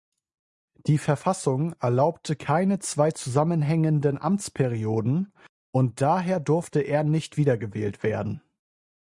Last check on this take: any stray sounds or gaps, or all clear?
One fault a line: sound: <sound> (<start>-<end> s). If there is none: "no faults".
no faults